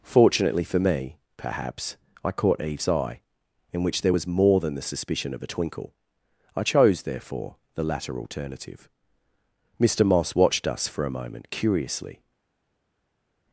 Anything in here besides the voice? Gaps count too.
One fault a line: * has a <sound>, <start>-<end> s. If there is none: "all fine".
all fine